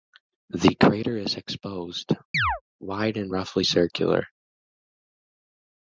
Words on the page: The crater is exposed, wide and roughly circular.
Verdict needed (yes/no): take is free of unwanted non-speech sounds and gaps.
no